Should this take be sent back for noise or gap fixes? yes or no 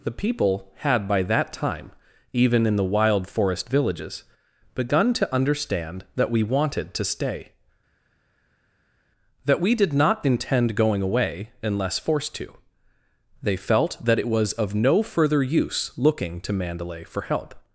no